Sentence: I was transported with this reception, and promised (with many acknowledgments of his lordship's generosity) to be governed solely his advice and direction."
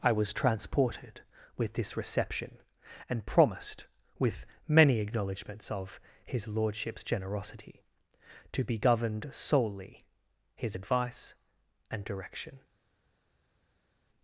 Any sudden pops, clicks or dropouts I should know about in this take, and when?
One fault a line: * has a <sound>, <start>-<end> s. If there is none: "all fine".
all fine